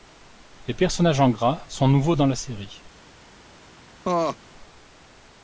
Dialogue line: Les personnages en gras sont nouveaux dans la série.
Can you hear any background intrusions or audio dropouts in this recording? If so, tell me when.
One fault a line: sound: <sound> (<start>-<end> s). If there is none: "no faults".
sound: laugh (4.0-4.4 s)